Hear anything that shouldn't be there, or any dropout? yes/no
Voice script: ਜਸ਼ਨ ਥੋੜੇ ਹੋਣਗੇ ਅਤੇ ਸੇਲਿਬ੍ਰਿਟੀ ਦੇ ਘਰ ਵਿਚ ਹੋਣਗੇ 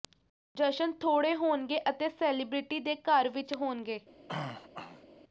yes